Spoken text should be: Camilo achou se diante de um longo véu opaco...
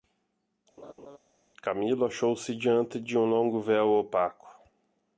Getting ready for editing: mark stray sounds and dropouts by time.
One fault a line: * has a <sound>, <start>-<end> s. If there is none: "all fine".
* has a laugh, 0.8-1.2 s